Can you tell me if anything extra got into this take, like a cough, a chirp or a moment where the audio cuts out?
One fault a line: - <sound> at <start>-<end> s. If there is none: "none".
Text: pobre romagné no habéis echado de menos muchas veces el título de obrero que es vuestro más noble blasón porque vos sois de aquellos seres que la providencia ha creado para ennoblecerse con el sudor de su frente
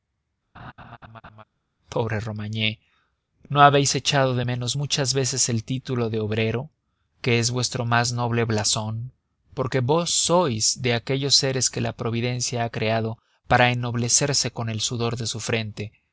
- laugh at 0.5-1.4 s